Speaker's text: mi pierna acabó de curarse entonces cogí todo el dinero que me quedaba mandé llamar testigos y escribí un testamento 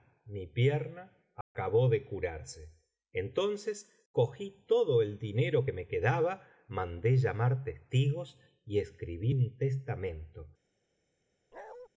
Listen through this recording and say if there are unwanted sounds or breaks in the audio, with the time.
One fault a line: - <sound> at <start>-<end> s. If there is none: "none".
- dropout at 1.4-1.5 s
- bark at 11.5-11.9 s